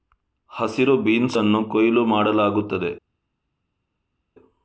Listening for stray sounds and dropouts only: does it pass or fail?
pass